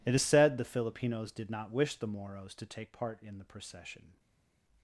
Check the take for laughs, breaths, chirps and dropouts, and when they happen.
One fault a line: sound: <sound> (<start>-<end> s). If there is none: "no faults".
no faults